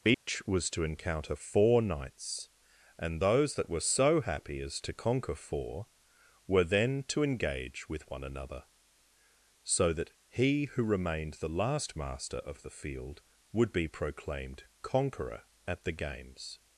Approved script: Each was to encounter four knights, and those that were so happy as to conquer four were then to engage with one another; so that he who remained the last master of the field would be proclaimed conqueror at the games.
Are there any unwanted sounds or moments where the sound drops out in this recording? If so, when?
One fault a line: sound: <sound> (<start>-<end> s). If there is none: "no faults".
sound: dropout (0.1-0.3 s)